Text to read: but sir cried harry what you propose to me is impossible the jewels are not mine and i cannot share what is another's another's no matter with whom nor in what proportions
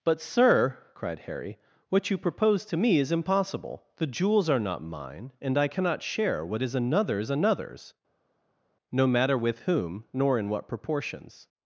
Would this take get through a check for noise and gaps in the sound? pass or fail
pass